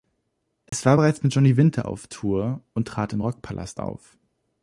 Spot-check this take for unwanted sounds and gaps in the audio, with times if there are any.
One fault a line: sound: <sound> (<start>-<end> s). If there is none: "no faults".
sound: dropout (0.7-0.7 s)